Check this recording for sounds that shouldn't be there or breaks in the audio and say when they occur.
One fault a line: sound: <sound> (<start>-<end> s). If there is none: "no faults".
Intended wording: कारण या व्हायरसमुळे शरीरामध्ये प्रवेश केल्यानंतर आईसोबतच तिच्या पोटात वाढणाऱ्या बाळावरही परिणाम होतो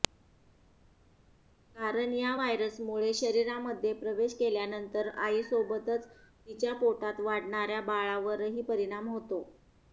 no faults